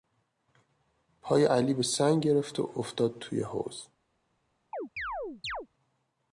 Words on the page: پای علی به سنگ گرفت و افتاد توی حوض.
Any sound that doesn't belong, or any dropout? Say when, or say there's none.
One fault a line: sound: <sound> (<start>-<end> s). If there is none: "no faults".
sound: chirp (4.7-5.7 s)